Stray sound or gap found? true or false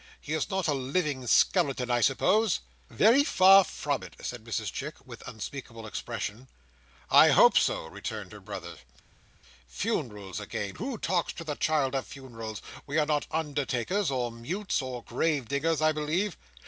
false